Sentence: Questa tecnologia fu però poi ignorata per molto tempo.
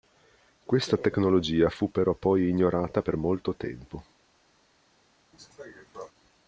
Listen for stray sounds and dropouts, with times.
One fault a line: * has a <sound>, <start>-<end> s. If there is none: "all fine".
* has a cough, 5.3-6.1 s